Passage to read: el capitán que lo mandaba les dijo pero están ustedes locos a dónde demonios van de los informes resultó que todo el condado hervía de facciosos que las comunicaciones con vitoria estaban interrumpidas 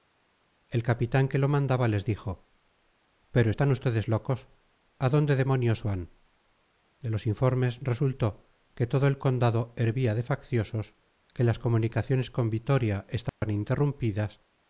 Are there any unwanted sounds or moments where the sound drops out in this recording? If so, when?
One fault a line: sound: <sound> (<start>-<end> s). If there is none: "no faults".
sound: dropout (13.3-13.4 s)